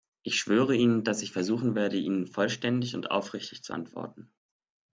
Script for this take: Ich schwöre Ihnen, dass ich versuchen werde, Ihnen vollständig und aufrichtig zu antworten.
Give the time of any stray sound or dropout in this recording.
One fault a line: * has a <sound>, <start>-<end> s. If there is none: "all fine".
all fine